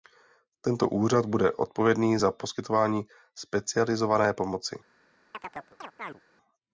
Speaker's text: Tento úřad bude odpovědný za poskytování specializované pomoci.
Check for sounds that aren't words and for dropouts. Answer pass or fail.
fail